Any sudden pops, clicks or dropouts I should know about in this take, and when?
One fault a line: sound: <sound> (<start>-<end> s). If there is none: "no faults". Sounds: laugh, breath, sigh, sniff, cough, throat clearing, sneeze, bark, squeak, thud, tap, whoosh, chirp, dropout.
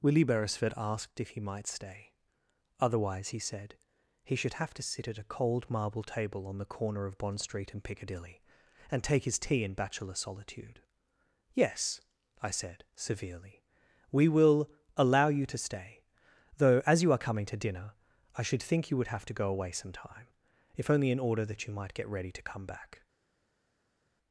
no faults